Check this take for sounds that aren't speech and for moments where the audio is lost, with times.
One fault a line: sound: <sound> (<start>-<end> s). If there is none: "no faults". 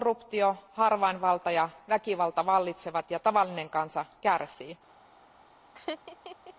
sound: laugh (5.7-6.5 s)